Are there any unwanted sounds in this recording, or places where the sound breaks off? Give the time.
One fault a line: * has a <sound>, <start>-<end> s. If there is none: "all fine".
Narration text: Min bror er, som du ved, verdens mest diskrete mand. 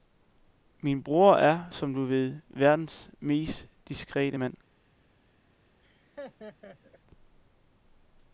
* has a laugh, 5.8-7.0 s